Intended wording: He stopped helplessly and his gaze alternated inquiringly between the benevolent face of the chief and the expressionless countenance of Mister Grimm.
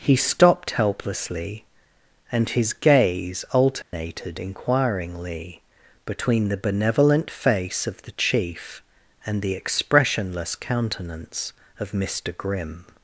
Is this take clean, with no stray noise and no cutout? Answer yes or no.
no